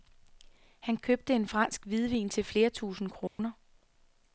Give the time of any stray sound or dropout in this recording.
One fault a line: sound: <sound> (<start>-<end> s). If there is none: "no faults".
sound: dropout (3.3-3.4 s)